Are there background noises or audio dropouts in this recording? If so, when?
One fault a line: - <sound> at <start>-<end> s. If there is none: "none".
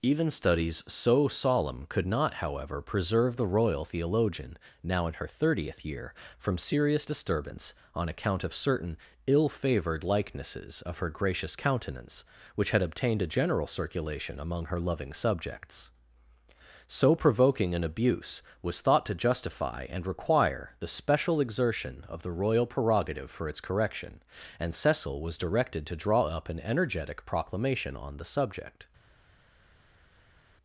none